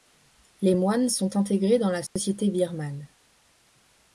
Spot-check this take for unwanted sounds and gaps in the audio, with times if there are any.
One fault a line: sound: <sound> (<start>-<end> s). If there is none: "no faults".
sound: dropout (2.1-2.2 s)